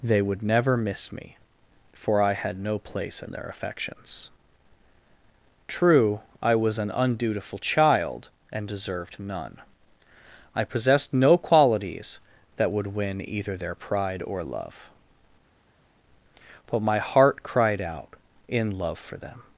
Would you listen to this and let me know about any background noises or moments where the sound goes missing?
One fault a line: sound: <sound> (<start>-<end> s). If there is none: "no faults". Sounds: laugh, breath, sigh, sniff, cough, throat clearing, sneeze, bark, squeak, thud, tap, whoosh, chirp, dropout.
no faults